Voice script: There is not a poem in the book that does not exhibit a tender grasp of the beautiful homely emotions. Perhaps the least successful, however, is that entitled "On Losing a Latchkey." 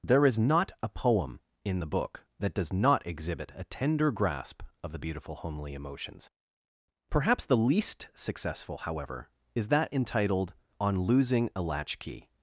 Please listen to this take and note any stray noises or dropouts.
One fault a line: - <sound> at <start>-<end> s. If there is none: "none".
none